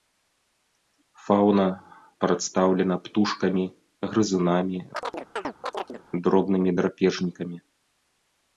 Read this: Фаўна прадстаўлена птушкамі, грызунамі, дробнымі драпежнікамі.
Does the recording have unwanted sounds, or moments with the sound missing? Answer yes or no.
yes